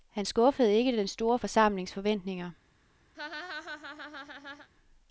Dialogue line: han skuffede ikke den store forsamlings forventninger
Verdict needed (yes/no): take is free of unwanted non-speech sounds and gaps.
no